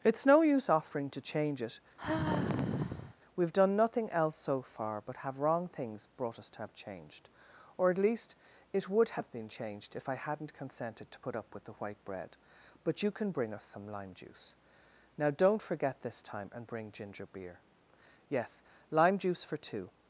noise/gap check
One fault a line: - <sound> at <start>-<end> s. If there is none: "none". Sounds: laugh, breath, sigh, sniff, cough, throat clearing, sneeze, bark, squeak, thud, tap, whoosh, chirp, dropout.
- sigh at 2.0-3.2 s